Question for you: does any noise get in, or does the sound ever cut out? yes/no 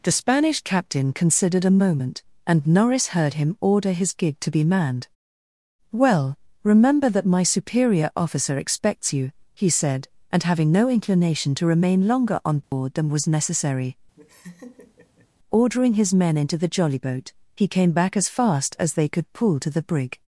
yes